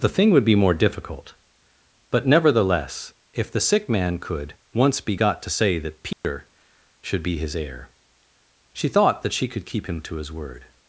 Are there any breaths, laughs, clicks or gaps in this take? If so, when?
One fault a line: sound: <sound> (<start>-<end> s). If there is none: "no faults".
sound: dropout (6.1-6.2 s)